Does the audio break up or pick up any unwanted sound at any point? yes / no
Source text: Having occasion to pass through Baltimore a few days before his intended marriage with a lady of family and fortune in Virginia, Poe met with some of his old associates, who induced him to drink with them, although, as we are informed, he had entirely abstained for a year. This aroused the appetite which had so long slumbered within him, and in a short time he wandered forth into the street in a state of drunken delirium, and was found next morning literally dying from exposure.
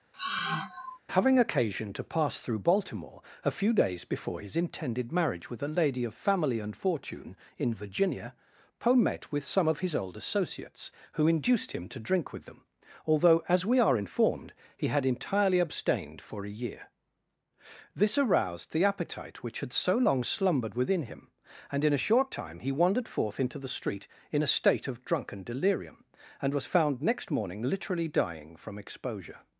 yes